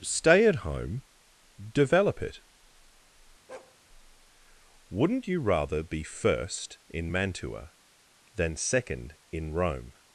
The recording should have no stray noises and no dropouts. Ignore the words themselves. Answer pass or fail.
fail